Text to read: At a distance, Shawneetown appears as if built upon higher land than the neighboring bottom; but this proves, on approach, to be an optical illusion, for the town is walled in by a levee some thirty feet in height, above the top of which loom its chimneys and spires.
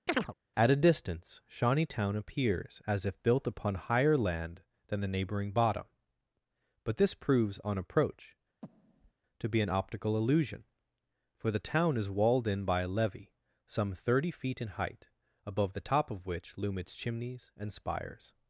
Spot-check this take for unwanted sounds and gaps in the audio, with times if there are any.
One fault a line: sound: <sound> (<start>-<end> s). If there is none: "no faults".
sound: chirp (0.1-0.3 s)
sound: breath (8.6-9.1 s)